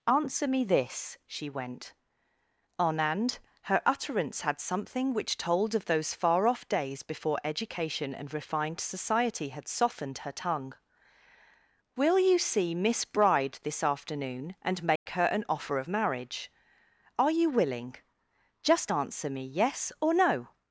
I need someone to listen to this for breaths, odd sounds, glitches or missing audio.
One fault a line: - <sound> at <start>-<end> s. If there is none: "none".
- dropout at 15.0-15.1 s